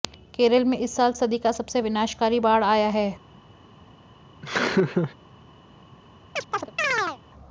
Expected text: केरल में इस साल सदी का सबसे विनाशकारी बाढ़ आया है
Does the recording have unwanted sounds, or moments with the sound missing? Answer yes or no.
yes